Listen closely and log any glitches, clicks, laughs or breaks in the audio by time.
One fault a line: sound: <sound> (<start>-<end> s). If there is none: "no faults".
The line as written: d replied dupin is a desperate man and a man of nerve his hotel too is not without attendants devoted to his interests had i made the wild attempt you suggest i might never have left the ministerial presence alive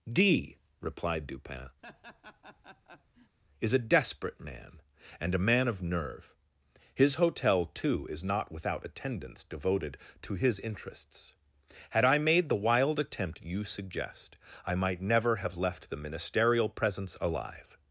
sound: laugh (1.8-3.4 s)